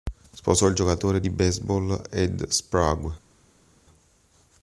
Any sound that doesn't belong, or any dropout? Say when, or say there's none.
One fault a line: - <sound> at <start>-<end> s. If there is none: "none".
none